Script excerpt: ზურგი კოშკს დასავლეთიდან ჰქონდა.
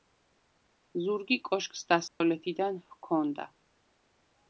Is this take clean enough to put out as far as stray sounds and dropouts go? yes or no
no